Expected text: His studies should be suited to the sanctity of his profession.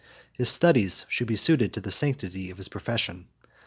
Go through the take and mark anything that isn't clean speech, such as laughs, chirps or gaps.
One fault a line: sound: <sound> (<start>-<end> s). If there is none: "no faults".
no faults